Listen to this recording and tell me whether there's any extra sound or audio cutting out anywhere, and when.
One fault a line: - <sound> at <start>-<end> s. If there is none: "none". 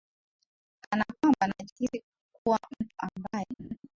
- laugh at 3.6-3.8 s